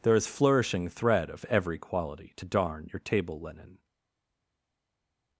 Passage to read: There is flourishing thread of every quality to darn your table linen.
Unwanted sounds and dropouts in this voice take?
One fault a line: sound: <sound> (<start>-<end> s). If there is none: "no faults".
no faults